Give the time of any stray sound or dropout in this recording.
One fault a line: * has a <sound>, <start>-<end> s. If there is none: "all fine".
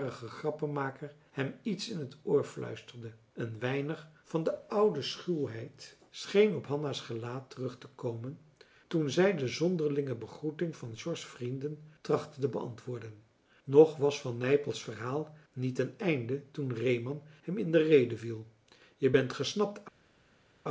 all fine